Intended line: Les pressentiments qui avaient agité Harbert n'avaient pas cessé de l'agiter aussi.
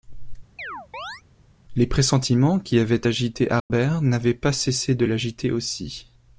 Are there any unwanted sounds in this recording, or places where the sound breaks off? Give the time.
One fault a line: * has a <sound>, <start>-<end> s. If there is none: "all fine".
* has a chirp, 0.6-1.2 s
* has a dropout, 3.6-3.7 s